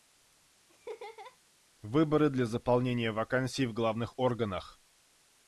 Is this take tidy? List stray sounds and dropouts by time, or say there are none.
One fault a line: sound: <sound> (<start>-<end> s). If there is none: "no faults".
sound: laugh (0.7-1.4 s)